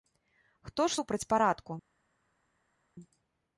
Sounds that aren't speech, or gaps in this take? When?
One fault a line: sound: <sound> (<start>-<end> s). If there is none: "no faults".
no faults